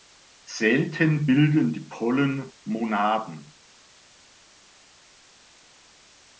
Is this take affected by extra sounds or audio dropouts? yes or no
no